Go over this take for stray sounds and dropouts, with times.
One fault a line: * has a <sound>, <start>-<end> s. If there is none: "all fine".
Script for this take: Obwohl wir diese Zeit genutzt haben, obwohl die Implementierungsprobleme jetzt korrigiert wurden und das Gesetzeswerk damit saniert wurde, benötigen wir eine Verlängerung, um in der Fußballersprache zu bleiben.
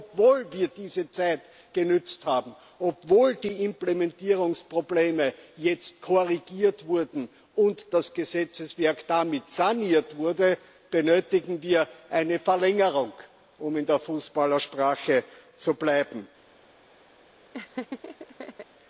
* has a laugh, 17.5-18.7 s